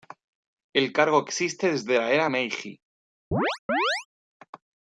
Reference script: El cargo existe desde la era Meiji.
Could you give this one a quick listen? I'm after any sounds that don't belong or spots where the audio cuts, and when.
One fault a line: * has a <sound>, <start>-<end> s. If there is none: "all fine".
* has a chirp, 3.3-4.1 s